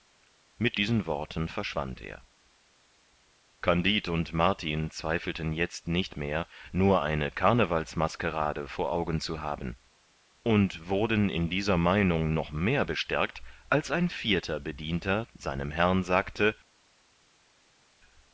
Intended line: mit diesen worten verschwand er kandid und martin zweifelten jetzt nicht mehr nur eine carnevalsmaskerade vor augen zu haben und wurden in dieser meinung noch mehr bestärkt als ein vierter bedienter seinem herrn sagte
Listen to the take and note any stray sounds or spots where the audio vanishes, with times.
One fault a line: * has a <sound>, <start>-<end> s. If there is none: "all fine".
all fine